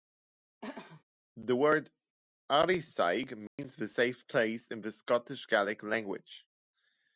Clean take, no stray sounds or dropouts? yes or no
no